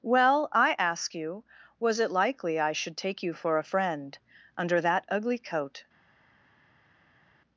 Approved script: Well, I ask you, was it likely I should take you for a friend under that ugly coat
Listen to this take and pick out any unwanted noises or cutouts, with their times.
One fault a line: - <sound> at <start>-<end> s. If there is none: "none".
none